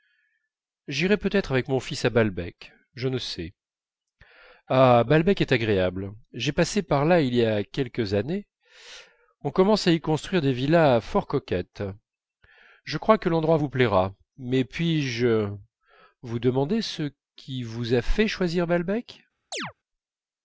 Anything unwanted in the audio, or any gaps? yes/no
yes